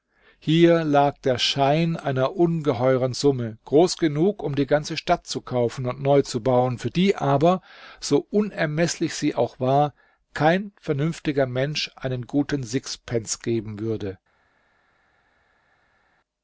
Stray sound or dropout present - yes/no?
no